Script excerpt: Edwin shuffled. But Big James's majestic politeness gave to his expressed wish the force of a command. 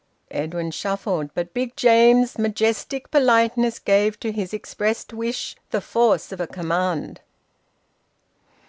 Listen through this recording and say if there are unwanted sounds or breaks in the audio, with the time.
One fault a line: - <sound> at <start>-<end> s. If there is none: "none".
none